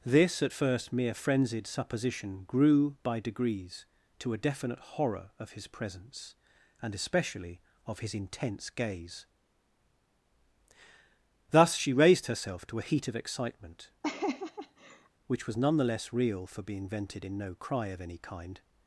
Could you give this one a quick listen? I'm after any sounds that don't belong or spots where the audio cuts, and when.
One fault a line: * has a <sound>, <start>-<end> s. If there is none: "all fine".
* has a laugh, 14.0-15.1 s